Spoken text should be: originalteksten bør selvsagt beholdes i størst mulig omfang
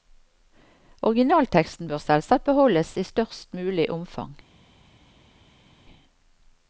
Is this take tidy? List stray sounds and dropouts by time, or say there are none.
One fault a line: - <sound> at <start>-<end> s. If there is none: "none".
none